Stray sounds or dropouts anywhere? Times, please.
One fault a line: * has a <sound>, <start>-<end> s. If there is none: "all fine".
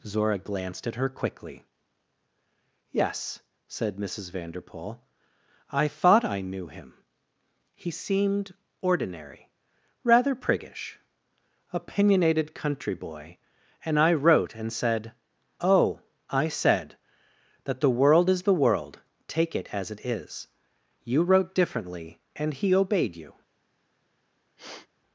* has a sniff, 24.6-24.9 s